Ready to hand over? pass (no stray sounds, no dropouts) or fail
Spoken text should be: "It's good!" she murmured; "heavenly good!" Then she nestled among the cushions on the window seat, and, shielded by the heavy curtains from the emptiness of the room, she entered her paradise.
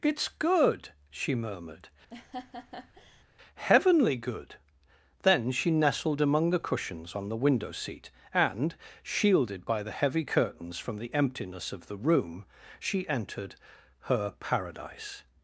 fail